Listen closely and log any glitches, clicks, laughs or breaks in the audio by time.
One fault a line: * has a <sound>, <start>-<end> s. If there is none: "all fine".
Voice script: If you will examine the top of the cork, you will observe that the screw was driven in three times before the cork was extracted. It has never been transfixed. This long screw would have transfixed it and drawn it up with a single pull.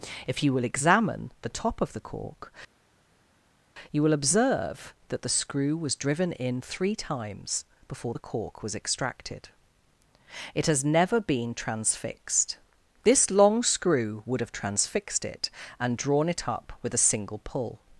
all fine